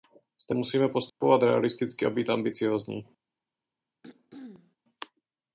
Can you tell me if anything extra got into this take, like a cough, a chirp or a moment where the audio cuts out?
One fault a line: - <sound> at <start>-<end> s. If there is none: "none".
- dropout at 1.1-1.2 s
- throat clearing at 4.0-4.8 s